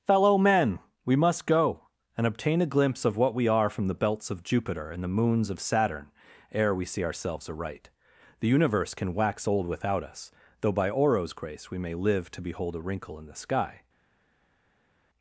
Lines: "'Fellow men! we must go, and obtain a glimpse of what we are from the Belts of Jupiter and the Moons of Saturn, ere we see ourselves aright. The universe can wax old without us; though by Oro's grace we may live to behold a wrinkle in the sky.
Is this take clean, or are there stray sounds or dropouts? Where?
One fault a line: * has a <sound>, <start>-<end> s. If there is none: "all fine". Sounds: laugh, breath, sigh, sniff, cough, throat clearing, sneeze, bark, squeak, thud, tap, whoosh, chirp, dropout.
all fine